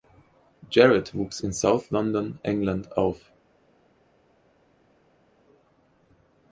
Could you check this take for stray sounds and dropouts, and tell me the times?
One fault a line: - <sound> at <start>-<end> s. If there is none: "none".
none